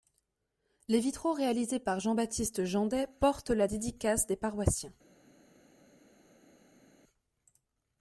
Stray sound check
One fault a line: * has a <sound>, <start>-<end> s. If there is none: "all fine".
all fine